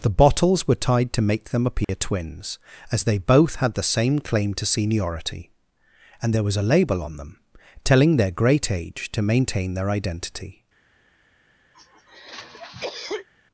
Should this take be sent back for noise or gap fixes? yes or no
yes